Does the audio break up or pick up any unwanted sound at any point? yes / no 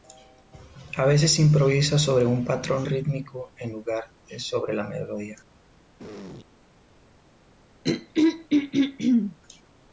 yes